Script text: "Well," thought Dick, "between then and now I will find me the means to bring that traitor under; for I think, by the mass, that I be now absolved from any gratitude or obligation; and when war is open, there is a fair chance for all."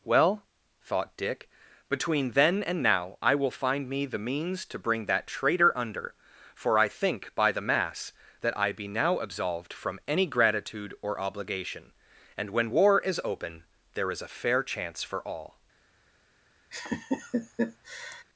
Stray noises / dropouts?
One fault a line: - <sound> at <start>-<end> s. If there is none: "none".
- laugh at 16.7-18.2 s